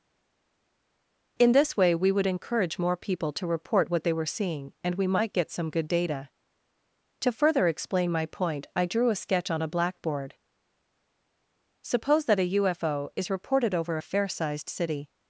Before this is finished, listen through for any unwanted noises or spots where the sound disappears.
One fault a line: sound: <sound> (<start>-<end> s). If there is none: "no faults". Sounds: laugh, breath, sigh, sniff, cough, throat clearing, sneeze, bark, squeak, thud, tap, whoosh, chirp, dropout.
no faults